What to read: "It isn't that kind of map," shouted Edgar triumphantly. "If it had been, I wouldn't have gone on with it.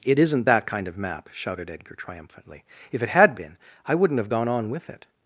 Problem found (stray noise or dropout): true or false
false